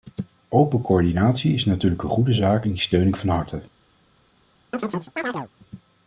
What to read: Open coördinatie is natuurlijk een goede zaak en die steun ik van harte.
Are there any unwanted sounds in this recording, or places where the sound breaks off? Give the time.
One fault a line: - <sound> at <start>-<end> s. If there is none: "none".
- chirp at 4.7-5.5 s